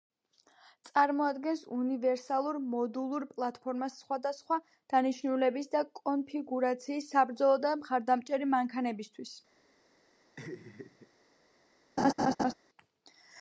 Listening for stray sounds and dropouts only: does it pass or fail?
fail